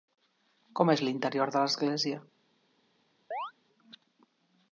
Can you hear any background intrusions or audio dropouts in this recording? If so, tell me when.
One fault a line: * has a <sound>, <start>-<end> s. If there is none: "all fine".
* has a chirp, 3.3-3.5 s